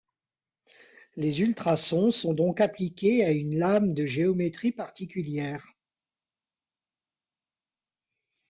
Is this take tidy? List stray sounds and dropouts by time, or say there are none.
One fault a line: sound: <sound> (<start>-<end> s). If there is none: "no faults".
no faults